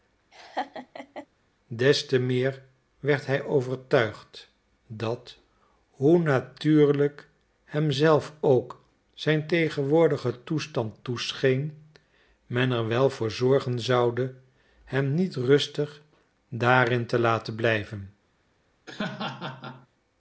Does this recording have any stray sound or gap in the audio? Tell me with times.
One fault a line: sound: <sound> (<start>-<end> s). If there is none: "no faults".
sound: laugh (0.3-1.3 s)
sound: laugh (18.9-19.9 s)